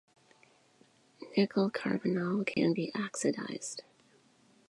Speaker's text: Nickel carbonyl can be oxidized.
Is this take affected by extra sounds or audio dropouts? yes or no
yes